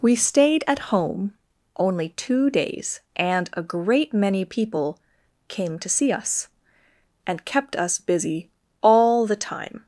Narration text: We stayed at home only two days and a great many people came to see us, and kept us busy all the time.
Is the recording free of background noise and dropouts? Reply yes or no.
yes